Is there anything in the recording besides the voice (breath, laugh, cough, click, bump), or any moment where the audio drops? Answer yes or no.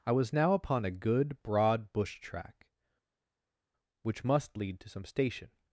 no